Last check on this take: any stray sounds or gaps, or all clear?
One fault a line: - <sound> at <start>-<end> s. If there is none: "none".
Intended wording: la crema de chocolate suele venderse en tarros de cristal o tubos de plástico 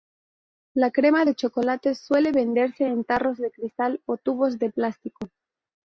none